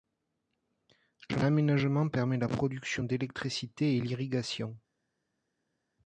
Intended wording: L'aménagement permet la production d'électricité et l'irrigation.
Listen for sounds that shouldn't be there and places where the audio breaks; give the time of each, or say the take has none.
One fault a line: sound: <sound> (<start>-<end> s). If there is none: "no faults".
no faults